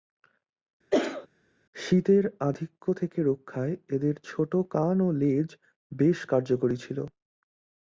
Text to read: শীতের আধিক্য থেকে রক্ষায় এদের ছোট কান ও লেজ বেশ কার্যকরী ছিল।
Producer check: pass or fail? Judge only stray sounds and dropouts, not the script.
fail